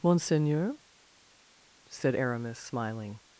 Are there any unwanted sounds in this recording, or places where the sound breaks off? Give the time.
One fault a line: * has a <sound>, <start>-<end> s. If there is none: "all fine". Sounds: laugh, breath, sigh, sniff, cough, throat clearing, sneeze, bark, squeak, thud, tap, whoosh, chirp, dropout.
all fine